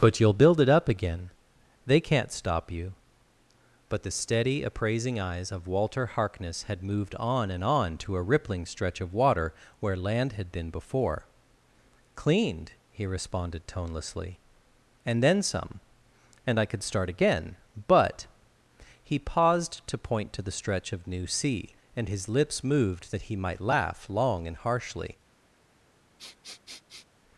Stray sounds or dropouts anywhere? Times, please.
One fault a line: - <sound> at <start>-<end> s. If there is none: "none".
- sniff at 26.2-27.1 s